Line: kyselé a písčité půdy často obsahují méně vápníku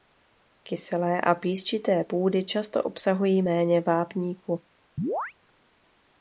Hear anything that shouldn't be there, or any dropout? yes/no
yes